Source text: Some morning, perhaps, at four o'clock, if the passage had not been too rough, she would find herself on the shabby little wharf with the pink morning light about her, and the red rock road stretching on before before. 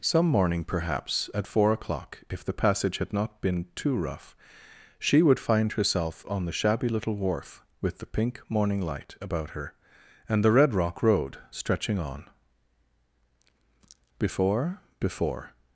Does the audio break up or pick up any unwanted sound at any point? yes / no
no